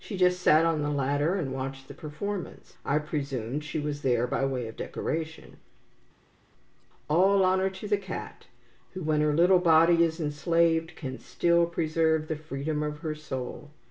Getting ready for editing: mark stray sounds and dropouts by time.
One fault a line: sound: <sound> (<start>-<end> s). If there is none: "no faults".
no faults